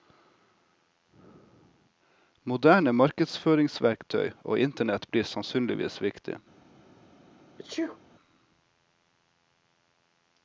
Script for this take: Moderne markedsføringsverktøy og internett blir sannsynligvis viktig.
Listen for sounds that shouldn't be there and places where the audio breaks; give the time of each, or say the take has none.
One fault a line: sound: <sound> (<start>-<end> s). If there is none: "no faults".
sound: sneeze (7.6-8.0 s)